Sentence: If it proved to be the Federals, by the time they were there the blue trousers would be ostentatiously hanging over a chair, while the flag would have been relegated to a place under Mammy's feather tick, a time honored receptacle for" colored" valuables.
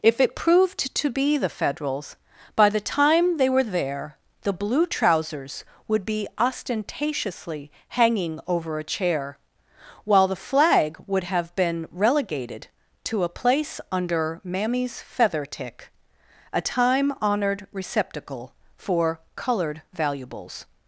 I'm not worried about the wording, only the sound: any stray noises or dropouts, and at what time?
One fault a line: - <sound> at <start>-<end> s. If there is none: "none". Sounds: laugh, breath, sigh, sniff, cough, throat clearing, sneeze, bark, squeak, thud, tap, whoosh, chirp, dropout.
none